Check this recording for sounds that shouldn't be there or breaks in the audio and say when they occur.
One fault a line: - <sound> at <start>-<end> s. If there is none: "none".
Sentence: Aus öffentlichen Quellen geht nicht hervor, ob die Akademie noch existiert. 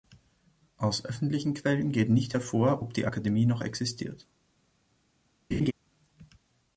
- laugh at 5.5-5.7 s